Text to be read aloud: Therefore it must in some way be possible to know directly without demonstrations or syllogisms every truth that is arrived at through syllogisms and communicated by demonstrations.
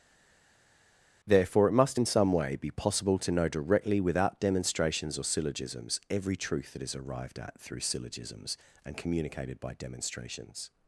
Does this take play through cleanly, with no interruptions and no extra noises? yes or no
yes